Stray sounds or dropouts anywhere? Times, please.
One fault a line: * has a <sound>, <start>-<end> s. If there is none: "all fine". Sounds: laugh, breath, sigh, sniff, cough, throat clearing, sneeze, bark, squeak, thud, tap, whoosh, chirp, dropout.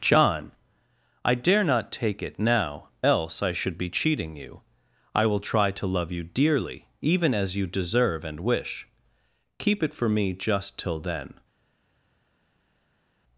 all fine